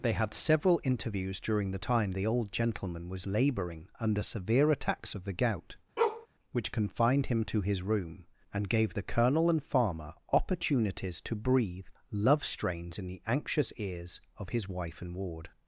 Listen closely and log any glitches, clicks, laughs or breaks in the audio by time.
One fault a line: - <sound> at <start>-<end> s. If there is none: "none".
- bark at 6.0-6.3 s